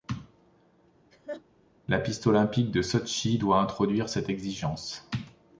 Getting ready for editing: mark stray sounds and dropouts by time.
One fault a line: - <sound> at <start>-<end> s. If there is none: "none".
- laugh at 1.1-1.4 s